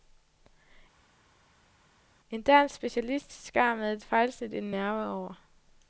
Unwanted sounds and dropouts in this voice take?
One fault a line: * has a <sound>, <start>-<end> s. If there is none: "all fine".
all fine